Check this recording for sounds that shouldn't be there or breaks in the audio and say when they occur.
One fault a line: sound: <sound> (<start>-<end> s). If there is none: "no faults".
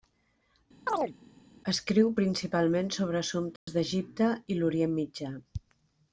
sound: chirp (0.9-1.1 s)
sound: dropout (3.6-3.7 s)